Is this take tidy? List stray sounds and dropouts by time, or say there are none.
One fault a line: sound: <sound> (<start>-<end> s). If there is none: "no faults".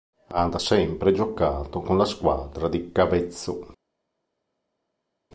no faults